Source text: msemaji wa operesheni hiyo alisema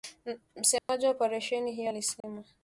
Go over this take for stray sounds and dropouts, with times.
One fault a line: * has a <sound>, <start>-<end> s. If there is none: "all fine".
* has a dropout, 0.8-0.9 s
* has a dropout, 2.2-2.2 s